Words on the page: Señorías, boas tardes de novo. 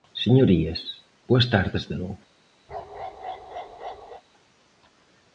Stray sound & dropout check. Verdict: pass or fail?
fail